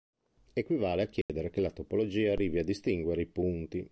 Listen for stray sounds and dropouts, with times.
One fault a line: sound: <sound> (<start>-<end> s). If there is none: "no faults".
sound: dropout (1.2-1.3 s)